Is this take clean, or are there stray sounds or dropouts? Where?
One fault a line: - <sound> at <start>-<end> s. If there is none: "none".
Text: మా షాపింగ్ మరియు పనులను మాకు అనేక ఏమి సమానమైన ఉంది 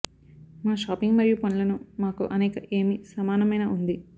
none